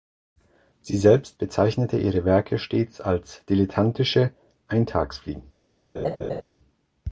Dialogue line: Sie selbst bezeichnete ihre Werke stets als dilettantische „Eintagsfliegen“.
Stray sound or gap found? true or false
true